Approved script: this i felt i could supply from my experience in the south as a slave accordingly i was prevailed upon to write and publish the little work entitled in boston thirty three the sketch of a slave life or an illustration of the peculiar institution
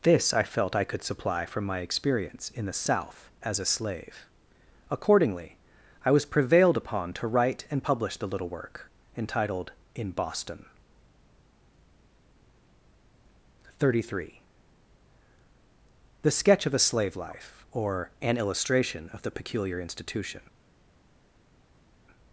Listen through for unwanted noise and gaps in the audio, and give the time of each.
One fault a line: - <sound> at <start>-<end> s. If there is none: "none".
none